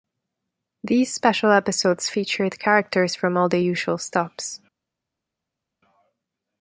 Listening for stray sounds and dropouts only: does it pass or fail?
pass